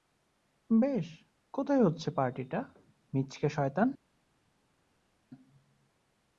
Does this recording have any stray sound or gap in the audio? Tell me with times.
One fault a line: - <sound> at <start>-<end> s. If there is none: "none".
none